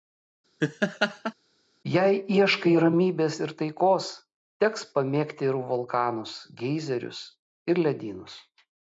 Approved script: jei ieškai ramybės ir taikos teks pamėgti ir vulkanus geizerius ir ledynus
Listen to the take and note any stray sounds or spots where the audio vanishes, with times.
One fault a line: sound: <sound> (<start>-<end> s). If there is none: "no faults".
sound: laugh (0.6-1.3 s)